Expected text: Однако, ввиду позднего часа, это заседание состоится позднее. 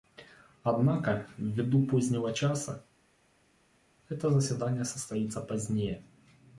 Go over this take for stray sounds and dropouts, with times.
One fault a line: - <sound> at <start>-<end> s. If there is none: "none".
none